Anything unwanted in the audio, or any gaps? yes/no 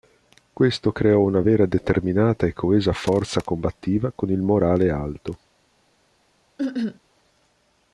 yes